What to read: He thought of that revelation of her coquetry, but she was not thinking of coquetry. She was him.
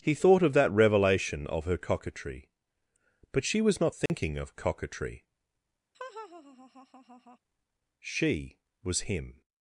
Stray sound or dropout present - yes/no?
yes